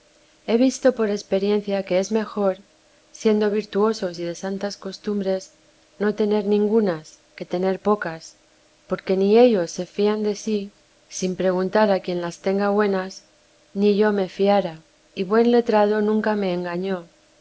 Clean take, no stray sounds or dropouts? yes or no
yes